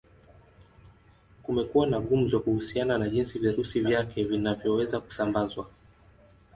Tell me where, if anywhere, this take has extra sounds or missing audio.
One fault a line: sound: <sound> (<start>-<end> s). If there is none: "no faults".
no faults